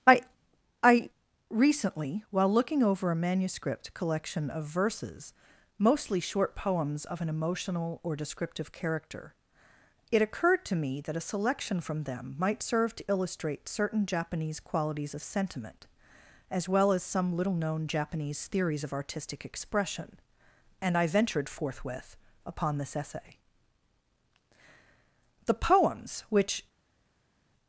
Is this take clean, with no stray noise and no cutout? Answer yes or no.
yes